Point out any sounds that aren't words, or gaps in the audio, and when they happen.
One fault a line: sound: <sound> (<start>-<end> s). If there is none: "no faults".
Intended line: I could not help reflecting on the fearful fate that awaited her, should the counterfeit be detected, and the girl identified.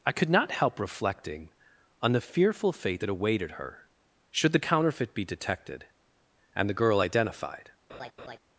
sound: laugh (7.9-8.4 s)